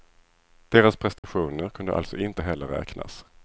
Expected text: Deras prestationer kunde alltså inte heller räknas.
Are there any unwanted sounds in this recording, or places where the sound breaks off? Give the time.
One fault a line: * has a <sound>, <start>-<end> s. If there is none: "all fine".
* has a dropout, 1.2-1.2 s